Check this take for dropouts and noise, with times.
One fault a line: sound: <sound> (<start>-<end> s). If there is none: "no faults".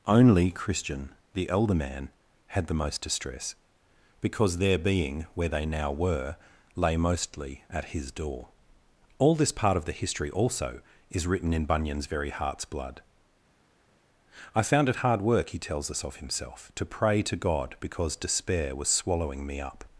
no faults